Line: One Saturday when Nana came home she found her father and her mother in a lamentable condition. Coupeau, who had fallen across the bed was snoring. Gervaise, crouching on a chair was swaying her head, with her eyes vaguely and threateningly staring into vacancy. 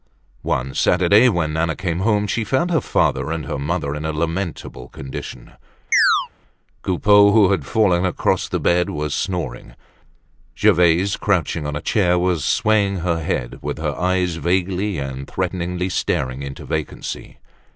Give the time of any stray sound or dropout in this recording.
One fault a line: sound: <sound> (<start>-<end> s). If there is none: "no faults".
sound: chirp (5.9-6.3 s)